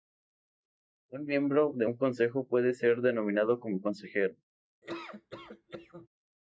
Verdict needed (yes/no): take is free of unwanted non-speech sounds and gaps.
no